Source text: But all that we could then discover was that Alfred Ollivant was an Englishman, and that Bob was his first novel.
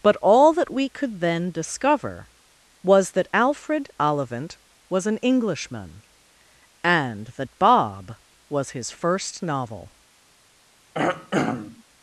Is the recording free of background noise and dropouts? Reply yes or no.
no